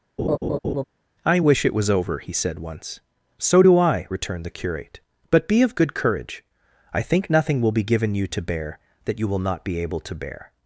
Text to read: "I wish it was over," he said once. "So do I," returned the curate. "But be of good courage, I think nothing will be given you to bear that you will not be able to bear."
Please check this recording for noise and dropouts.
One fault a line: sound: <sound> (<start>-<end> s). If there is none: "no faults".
sound: laugh (0.2-0.8 s)